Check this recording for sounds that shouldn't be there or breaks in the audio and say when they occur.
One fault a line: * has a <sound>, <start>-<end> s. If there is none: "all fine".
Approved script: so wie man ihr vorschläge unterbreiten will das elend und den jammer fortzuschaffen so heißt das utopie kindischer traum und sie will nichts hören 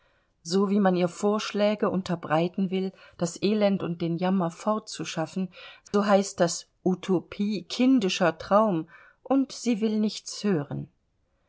* has a dropout, 5.9-5.9 s